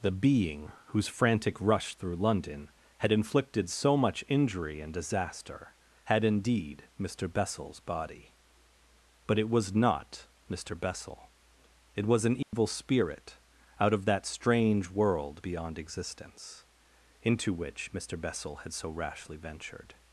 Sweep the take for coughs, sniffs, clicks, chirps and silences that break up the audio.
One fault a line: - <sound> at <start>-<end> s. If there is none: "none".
- dropout at 12.4-12.5 s